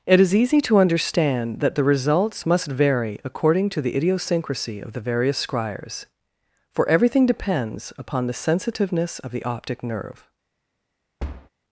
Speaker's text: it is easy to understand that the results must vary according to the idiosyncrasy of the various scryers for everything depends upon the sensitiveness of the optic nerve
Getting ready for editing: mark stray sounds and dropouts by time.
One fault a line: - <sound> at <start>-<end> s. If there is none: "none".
- thud at 11.2-11.5 s